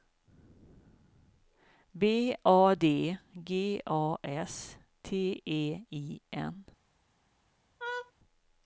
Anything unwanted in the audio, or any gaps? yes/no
yes